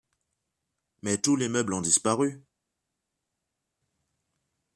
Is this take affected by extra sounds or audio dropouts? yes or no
no